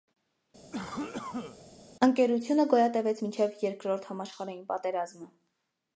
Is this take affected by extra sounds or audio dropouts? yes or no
yes